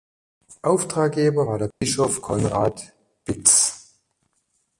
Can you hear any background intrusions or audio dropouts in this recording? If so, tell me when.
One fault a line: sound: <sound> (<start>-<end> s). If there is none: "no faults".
sound: dropout (1.7-1.8 s)